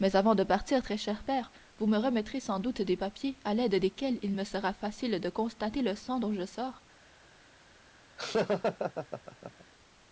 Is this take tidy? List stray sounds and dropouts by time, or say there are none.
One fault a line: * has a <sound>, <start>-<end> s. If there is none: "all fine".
* has a laugh, 8.2-9.6 s